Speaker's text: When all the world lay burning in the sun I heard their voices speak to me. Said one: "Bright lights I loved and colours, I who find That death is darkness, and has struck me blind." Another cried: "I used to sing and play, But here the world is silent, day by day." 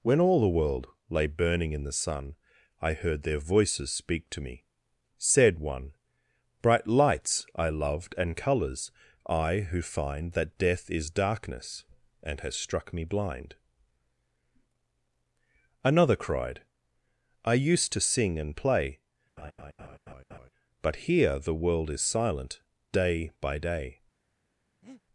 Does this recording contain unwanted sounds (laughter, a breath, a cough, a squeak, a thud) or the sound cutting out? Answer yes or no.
yes